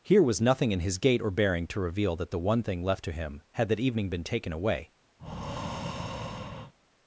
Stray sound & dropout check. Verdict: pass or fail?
fail